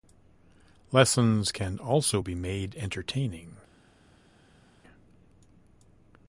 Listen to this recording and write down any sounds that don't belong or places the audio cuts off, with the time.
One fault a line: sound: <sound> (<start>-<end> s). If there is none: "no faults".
no faults